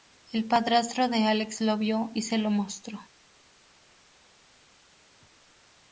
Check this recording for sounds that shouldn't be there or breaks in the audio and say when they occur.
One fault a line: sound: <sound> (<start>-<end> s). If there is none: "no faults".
no faults